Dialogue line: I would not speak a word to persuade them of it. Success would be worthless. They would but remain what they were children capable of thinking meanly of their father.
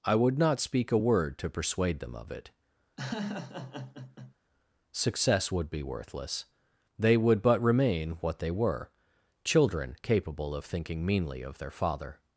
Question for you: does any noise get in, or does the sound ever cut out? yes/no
yes